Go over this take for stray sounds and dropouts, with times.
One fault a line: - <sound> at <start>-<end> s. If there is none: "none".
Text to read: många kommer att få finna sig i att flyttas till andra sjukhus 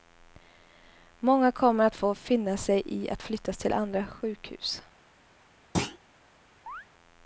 - thud at 5.7-6.0 s
- chirp at 6.7-6.9 s